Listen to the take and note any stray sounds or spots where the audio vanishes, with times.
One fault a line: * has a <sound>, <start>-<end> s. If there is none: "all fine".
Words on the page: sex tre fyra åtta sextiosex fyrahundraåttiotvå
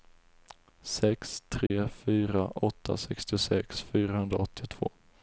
* has a dropout, 1.7-1.7 s